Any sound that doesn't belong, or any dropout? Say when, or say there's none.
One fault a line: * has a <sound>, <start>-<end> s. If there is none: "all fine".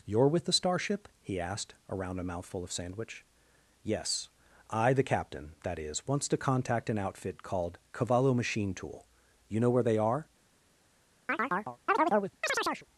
* has a chirp, 11.3-12.9 s